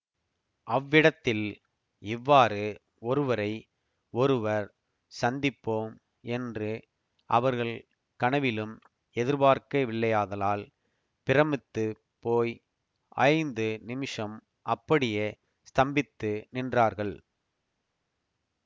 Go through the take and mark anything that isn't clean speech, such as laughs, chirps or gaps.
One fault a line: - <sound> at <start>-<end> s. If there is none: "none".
none